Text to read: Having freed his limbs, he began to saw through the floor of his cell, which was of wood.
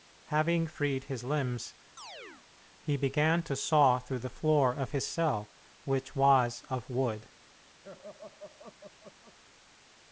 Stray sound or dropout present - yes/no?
yes